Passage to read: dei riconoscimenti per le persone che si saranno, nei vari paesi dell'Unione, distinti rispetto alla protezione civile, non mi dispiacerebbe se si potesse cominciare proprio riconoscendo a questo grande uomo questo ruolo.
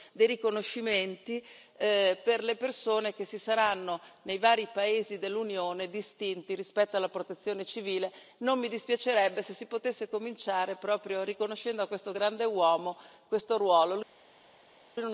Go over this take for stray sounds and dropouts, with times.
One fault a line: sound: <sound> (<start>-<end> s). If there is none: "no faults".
no faults